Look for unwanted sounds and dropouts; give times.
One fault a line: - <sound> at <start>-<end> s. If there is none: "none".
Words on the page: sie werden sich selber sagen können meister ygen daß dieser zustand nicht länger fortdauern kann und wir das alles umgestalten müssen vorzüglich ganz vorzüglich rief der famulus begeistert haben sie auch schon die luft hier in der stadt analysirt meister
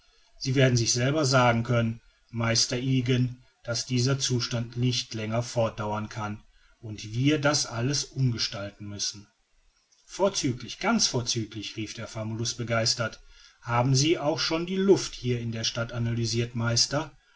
none